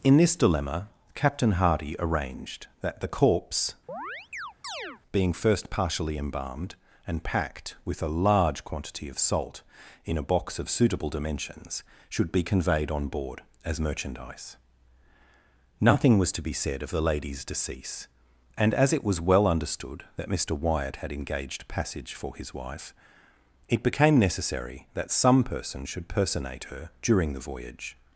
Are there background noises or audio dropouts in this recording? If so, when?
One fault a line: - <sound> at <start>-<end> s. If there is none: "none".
- chirp at 3.9-5.0 s